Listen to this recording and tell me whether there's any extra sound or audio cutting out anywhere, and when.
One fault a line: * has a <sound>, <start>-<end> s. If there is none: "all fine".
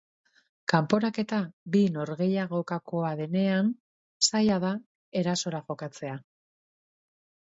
all fine